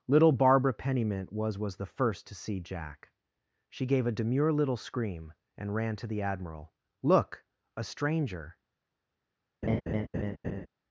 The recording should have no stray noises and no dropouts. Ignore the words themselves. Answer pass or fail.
fail